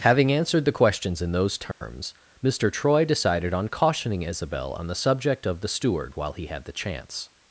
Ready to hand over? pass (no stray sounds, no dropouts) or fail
fail